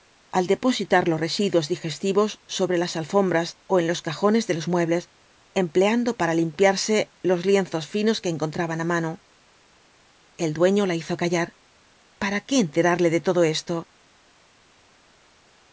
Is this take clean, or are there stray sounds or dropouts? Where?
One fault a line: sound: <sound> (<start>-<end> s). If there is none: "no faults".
no faults